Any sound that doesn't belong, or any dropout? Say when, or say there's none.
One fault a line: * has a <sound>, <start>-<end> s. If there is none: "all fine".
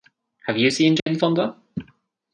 * has a dropout, 1.0-1.1 s